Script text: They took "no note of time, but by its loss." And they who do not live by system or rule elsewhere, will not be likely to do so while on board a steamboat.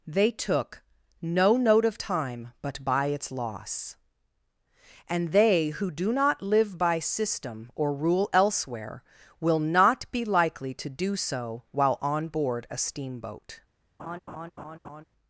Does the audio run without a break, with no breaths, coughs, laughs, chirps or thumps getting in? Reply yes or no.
no